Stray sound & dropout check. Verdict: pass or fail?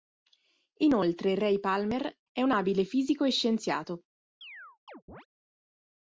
fail